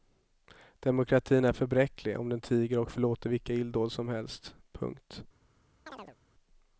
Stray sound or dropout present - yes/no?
yes